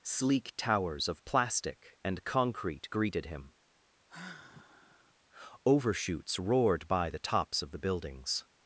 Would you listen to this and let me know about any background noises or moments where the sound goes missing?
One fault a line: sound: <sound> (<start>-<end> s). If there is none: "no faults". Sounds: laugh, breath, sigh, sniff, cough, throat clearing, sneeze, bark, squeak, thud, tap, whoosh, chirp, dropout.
sound: sigh (4.1-5.1 s)